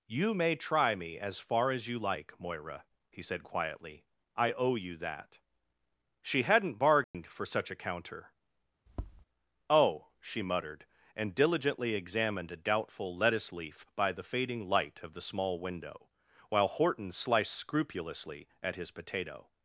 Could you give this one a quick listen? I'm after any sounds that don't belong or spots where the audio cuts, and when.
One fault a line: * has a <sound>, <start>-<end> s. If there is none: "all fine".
* has a dropout, 7.0-7.1 s
* has a tap, 8.9-9.2 s